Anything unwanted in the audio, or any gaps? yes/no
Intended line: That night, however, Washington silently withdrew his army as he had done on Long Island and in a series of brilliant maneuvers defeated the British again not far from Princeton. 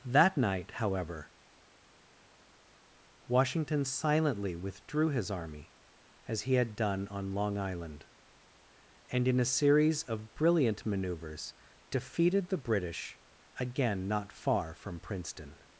no